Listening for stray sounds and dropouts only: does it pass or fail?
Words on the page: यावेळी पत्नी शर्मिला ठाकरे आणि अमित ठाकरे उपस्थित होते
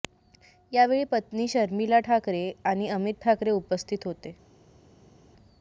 pass